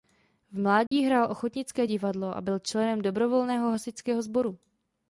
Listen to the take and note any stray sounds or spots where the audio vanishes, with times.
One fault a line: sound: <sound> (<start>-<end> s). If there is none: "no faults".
sound: dropout (0.9-0.9 s)